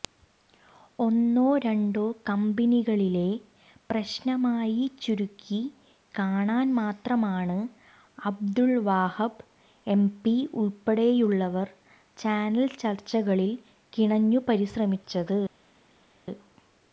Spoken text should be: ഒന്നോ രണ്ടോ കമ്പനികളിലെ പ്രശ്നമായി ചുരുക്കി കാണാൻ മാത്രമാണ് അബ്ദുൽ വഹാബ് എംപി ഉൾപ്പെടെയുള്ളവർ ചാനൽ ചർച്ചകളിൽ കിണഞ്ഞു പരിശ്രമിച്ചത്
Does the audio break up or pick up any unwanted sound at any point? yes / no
no